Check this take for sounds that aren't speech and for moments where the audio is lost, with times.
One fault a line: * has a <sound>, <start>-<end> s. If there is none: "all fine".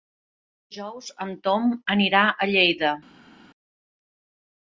all fine